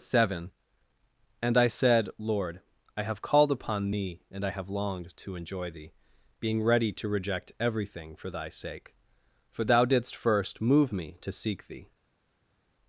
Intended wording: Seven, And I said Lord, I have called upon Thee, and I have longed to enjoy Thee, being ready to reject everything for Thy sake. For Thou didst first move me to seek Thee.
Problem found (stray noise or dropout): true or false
false